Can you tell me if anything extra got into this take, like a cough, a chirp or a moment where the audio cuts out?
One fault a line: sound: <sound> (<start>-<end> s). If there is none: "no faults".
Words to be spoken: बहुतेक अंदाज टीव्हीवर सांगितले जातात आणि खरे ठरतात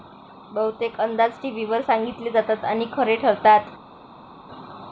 no faults